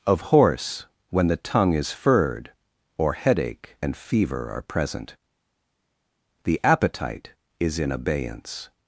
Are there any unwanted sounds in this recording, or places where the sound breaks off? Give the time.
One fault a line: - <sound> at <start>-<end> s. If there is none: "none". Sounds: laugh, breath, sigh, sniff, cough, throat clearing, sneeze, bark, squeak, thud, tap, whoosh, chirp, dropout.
none